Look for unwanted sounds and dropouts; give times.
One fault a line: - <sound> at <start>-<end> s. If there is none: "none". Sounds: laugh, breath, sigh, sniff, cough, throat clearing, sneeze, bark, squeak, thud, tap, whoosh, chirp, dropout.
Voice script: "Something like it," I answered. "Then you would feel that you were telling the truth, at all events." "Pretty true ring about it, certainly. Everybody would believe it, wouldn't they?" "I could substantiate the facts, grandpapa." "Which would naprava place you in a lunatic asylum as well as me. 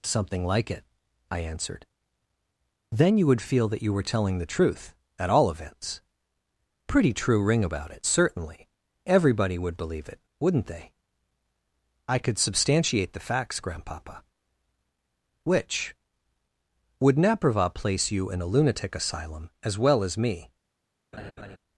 - laugh at 21.1-21.6 s